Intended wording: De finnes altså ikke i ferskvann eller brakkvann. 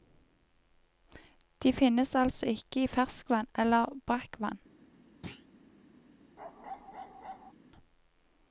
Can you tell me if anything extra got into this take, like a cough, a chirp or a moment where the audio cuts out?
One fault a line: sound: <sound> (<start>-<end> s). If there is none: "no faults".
sound: thud (5.2-5.5 s)
sound: bark (6.4-7.5 s)